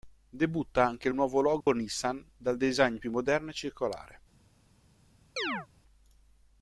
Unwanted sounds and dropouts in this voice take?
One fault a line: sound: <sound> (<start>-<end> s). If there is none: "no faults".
sound: dropout (1.6-1.7 s)
sound: chirp (5.4-5.7 s)